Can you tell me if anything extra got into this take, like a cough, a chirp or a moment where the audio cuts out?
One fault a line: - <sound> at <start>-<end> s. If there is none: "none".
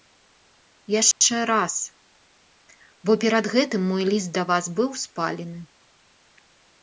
- dropout at 1.1-1.2 s